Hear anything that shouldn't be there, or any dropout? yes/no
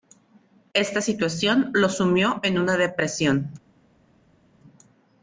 no